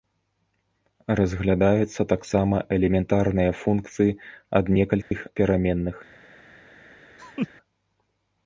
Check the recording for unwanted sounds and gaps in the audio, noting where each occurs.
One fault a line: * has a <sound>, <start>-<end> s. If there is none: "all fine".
* has a dropout, 5.0-5.1 s
* has a laugh, 7.2-7.5 s